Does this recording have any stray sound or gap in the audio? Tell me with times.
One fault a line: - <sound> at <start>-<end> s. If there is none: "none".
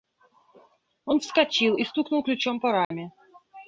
- dropout at 2.8-2.9 s